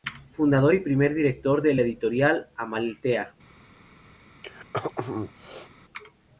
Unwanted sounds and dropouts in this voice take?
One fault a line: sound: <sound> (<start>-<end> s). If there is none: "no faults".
sound: throat clearing (4.4-5.7 s)